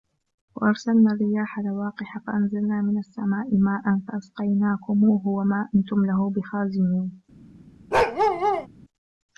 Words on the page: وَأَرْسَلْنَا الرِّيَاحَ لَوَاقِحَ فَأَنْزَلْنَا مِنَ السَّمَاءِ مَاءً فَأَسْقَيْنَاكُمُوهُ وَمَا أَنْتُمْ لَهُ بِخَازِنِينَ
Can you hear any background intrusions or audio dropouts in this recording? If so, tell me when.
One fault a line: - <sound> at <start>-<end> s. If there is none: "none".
- bark at 7.9-8.7 s